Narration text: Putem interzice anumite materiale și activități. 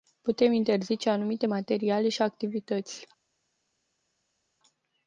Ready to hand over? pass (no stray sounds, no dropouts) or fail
pass